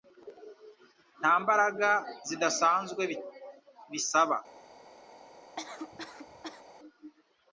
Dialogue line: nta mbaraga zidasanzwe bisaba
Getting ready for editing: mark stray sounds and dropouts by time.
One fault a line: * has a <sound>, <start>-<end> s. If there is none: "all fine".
* has a cough, 5.6-6.6 s